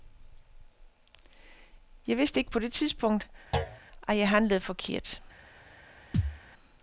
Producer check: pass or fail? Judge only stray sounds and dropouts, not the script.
fail